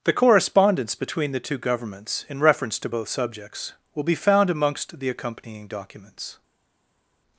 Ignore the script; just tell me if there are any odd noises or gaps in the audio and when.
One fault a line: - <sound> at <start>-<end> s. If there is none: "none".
none